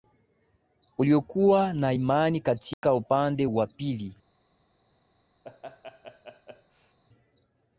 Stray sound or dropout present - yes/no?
yes